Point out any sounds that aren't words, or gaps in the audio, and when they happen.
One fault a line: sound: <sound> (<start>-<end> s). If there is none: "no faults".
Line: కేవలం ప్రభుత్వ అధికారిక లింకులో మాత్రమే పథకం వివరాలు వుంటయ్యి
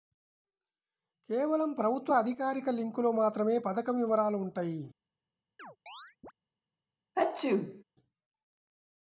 sound: chirp (5.6-6.3 s)
sound: sneeze (7.1-7.8 s)